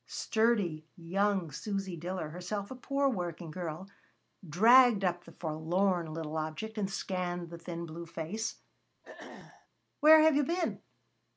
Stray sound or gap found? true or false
true